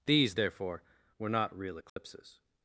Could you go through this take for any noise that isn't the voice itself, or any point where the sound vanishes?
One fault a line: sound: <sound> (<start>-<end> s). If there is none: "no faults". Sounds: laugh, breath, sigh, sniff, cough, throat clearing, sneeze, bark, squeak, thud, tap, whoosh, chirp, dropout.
sound: dropout (1.9-2.0 s)